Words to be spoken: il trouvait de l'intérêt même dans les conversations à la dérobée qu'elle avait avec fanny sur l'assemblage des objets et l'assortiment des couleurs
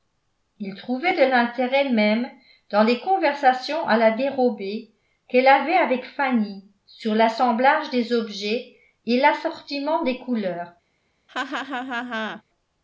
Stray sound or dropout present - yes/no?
yes